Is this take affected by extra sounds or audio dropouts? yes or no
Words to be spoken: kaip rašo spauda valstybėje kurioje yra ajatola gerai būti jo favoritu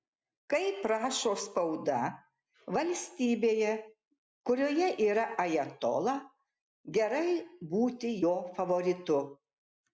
no